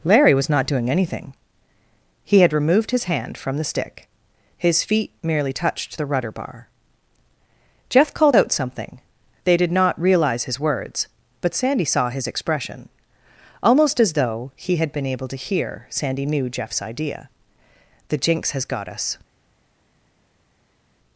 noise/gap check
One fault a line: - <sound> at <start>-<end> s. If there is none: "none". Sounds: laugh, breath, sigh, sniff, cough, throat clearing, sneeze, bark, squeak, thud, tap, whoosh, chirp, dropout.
none